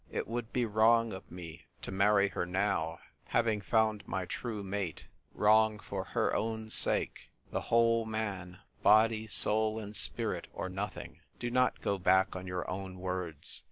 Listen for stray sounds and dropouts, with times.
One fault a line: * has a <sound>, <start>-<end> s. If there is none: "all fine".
all fine